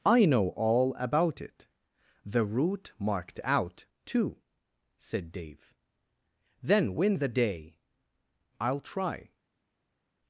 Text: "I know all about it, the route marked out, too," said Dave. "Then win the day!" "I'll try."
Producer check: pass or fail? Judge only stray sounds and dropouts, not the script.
pass